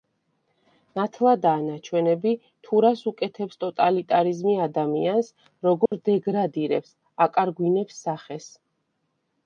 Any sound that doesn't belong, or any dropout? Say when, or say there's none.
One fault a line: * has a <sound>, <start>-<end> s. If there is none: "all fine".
* has a dropout, 5.9-5.9 s